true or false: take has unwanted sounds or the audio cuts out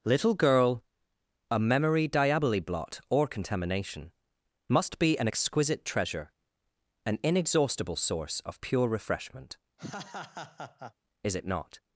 true